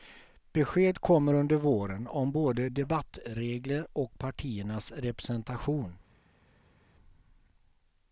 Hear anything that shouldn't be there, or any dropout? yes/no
no